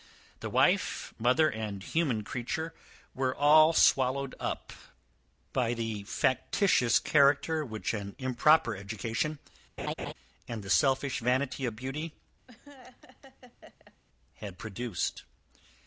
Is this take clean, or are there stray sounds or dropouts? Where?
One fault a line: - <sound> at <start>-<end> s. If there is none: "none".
- laugh at 9.8-10.1 s
- laugh at 12.5-14.0 s